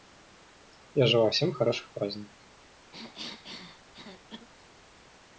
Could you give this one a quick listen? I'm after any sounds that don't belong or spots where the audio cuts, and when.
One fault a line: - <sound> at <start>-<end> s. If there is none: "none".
- cough at 2.9-4.5 s